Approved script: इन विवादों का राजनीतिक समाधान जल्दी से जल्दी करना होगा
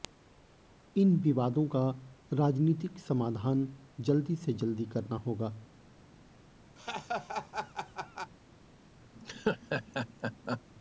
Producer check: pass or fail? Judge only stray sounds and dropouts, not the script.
fail